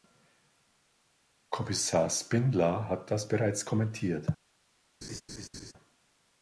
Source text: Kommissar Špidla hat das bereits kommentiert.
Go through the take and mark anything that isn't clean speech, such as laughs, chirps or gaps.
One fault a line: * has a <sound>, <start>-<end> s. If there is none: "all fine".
* has a laugh, 5.0-5.7 s